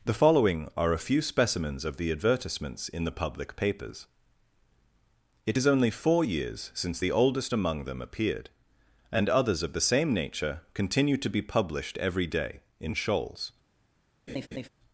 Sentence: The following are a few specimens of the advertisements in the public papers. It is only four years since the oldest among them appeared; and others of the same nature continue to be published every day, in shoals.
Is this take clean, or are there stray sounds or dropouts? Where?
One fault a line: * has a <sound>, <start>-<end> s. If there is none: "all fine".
* has a laugh, 14.3-14.7 s